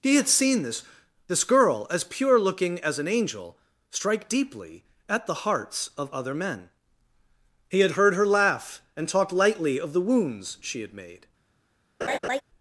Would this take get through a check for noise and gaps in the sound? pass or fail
fail